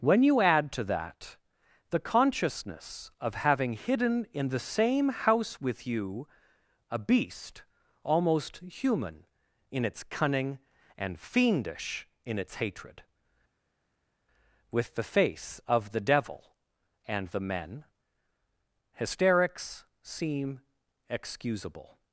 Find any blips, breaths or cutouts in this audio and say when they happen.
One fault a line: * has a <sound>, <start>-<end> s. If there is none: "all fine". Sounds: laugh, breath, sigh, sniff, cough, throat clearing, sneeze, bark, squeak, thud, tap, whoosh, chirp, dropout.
all fine